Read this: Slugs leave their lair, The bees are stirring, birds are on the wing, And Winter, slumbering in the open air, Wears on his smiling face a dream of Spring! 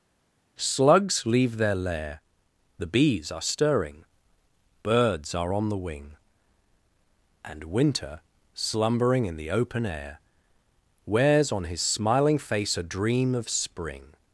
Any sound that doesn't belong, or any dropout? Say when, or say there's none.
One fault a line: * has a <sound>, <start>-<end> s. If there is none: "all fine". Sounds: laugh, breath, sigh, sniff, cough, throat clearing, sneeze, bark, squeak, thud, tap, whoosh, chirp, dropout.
all fine